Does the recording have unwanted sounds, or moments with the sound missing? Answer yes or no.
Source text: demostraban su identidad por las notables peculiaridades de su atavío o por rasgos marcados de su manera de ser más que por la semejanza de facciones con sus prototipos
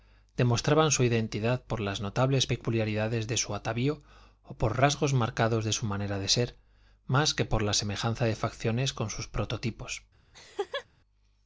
yes